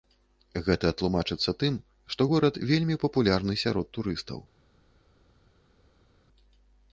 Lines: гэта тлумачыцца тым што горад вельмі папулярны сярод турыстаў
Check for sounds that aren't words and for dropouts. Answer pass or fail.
pass